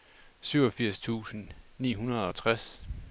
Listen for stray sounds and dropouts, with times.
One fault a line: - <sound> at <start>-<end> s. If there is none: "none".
none